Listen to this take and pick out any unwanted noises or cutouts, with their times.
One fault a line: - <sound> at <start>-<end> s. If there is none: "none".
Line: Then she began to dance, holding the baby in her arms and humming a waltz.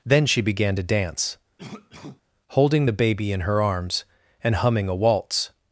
- cough at 1.6-2.2 s